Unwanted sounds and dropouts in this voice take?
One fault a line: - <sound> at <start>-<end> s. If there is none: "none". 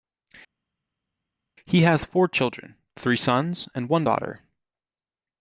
none